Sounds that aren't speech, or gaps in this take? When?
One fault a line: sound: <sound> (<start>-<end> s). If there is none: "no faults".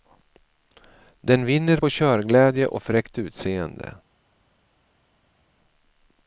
no faults